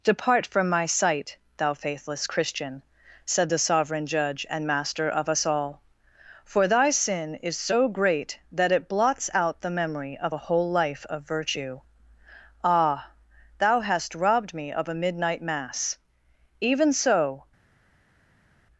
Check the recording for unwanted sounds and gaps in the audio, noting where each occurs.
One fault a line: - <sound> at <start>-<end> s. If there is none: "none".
none